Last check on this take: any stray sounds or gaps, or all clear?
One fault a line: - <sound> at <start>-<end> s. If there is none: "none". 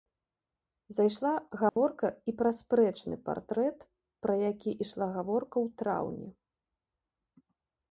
- dropout at 1.7-1.8 s